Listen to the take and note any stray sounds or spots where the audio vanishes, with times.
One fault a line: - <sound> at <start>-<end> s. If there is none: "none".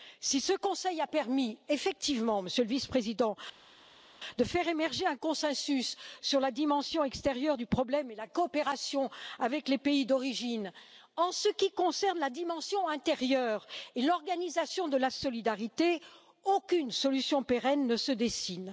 none